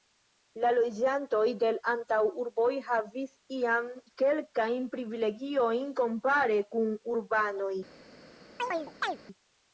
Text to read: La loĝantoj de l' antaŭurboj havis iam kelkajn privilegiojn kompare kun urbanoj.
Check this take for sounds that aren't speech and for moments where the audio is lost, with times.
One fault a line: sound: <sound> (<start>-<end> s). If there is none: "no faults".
sound: chirp (8.6-9.2 s)